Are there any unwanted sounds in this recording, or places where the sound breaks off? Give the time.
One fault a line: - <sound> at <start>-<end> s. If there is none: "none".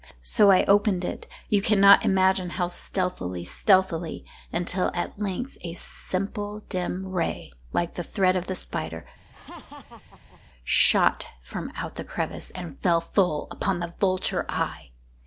- laugh at 9.3-10.4 s